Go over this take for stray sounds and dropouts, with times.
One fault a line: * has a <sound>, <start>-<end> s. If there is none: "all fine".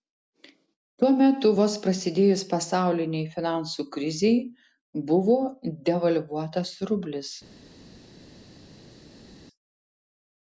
all fine